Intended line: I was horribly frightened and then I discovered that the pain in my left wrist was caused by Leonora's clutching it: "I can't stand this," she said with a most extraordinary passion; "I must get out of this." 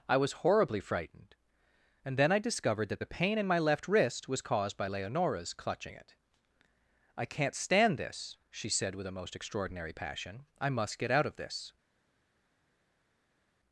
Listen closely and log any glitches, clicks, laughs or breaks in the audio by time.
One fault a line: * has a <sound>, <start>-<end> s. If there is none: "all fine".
all fine